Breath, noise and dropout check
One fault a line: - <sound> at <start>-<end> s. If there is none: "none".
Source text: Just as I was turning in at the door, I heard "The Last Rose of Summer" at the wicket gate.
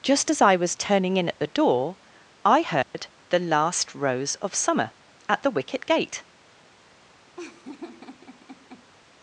- dropout at 2.8-2.9 s
- laugh at 7.4-8.9 s